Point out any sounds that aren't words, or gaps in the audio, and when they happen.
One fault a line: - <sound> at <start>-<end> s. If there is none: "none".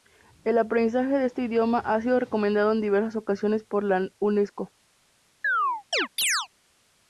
- chirp at 5.4-6.5 s